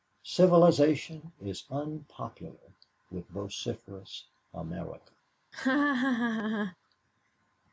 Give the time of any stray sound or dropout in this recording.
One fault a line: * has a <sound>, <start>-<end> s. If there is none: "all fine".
* has a laugh, 5.5-6.8 s